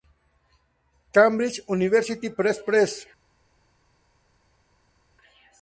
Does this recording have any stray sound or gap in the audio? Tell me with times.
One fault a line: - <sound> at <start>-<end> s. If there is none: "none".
none